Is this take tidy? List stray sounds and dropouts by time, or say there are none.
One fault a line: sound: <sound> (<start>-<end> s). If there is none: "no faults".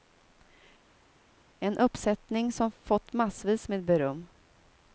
no faults